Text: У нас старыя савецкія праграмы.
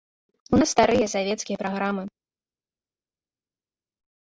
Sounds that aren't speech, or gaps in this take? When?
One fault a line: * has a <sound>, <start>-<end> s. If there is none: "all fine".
all fine